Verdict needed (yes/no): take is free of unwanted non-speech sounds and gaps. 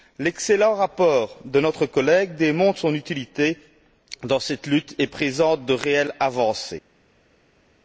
yes